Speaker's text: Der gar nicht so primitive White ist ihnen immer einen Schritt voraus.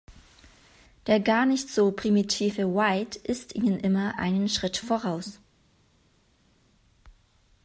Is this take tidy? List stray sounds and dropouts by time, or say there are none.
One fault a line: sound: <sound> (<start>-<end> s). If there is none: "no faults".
no faults